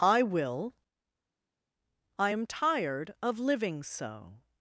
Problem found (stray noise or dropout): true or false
false